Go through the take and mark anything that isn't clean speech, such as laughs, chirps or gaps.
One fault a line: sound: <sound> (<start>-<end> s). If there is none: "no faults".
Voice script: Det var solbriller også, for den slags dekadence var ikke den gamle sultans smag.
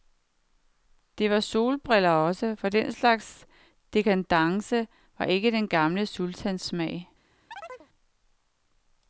sound: chirp (7.5-7.9 s)